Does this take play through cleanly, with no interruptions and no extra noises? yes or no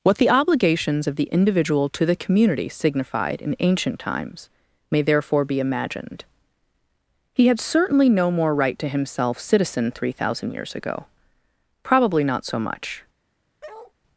no